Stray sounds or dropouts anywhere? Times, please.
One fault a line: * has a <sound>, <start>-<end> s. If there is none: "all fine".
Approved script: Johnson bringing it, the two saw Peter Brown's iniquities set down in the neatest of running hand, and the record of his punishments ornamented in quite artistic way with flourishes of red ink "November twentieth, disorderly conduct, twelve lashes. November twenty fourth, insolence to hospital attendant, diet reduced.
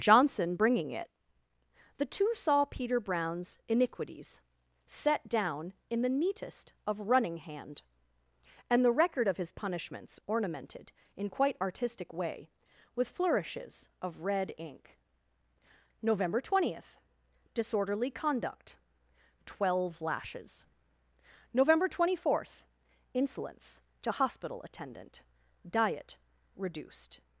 all fine